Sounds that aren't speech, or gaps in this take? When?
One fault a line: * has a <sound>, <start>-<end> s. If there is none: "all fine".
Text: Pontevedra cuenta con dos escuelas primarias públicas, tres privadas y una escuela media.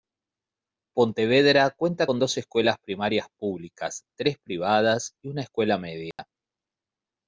* has a dropout, 6.1-6.2 s